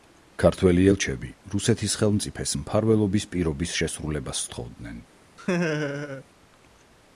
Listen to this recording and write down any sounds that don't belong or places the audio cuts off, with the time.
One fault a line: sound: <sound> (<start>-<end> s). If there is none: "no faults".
sound: laugh (5.4-6.2 s)